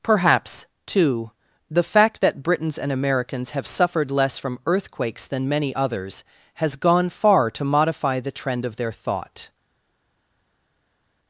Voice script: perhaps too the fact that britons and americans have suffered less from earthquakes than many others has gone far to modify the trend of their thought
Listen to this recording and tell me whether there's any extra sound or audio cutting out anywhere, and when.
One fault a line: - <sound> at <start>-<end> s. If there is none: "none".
none